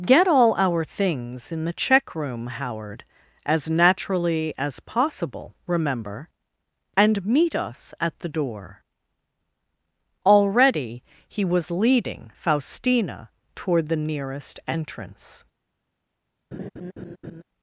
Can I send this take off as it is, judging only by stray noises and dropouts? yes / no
no